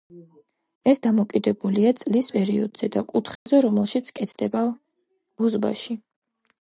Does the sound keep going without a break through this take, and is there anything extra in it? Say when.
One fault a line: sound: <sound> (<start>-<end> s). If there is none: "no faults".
sound: dropout (3.4-3.5 s)